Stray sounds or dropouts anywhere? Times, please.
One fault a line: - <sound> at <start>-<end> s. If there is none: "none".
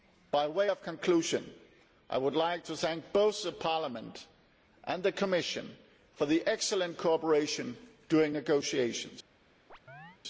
- chirp at 9.7-10.2 s